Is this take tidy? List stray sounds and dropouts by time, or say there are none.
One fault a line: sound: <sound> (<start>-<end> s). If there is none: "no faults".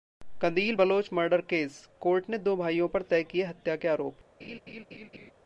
sound: laugh (4.4-5.3 s)